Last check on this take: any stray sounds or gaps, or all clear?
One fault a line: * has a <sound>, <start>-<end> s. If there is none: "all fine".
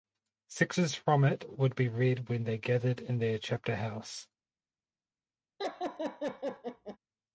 * has a laugh, 5.6-7.0 s